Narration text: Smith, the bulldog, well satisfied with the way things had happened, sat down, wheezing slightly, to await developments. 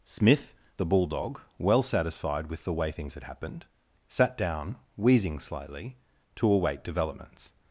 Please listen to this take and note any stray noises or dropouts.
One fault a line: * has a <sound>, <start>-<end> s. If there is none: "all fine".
all fine